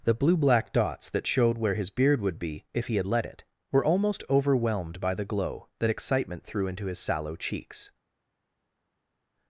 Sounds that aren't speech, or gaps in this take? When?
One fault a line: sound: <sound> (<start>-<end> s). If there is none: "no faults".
no faults